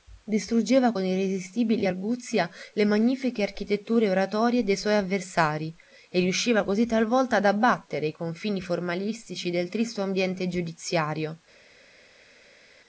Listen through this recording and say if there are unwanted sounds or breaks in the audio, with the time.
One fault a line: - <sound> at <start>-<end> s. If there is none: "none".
none